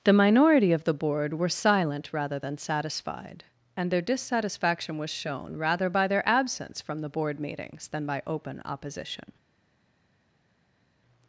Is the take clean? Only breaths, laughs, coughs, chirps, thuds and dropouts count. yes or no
yes